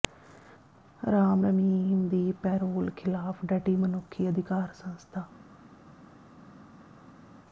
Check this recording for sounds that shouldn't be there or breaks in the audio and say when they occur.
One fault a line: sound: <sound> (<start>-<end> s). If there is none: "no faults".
no faults